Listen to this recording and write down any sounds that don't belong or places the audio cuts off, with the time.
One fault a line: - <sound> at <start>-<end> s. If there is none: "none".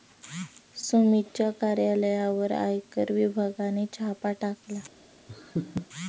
- laugh at 5.3-5.9 s